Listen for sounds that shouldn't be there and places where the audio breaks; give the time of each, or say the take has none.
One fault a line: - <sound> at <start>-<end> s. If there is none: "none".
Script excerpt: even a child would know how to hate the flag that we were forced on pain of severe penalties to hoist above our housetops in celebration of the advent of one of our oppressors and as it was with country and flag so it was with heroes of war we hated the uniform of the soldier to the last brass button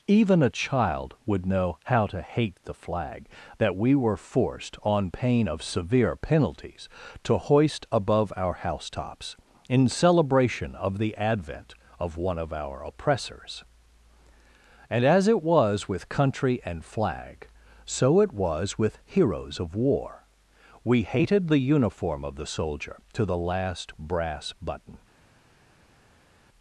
none